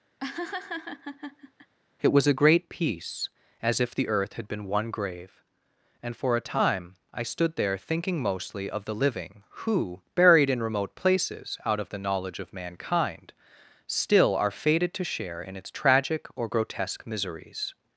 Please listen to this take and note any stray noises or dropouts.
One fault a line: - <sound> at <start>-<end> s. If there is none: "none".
- laugh at 0.2-1.7 s